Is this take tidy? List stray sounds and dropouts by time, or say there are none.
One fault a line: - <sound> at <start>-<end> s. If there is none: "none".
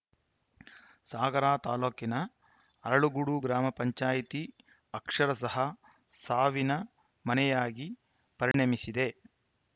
- dropout at 8.5-8.5 s